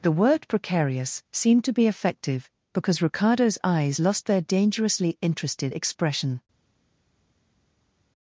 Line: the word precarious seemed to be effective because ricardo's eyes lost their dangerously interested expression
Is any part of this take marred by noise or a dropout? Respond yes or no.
no